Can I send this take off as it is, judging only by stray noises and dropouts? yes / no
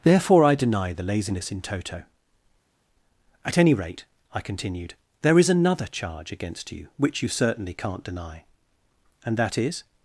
yes